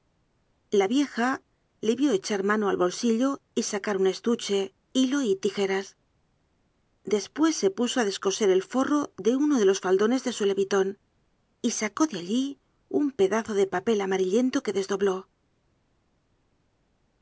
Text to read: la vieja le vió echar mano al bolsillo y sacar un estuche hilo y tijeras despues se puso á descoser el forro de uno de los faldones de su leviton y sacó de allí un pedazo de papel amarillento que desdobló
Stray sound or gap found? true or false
false